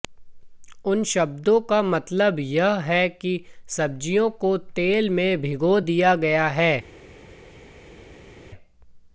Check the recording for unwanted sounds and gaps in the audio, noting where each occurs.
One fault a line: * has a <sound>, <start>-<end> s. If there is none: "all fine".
all fine